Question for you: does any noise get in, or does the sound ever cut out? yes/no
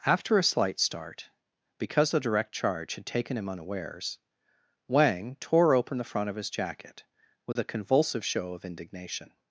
yes